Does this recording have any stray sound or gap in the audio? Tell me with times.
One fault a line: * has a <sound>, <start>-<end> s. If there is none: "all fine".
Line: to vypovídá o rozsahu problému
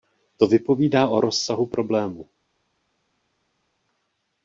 all fine